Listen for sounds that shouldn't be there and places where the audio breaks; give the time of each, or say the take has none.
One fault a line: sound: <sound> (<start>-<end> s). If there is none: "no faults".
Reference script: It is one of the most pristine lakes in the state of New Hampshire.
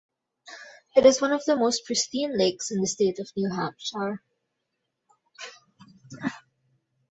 no faults